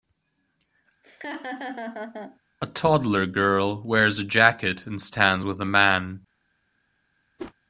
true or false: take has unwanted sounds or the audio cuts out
true